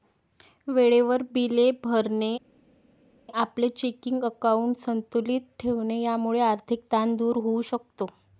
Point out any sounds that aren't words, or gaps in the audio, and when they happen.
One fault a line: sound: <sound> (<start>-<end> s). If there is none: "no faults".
no faults